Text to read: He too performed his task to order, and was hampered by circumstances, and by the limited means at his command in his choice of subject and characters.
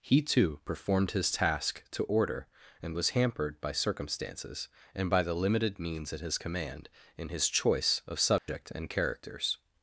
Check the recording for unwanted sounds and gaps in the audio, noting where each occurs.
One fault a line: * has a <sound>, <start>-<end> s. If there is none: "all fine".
* has a dropout, 8.4-8.5 s